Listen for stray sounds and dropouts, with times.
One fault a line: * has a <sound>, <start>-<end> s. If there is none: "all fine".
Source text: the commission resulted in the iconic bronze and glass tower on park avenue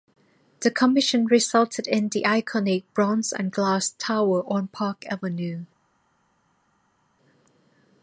all fine